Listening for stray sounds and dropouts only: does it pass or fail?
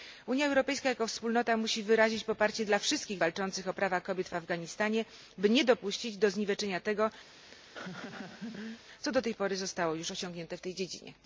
fail